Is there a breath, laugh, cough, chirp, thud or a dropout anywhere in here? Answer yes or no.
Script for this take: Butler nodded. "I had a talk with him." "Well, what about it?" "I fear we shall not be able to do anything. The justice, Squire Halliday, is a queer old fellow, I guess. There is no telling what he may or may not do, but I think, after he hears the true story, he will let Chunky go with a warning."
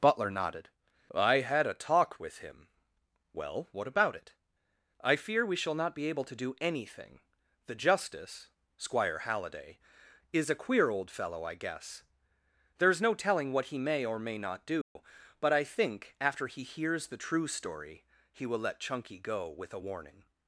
yes